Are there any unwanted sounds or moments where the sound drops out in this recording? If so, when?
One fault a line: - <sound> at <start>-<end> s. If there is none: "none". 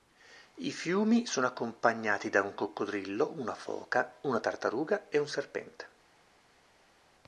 none